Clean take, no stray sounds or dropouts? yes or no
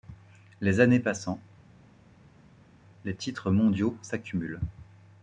yes